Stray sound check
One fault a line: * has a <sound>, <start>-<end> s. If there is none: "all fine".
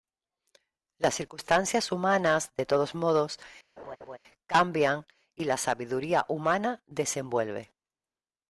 * has a laugh, 3.8-4.2 s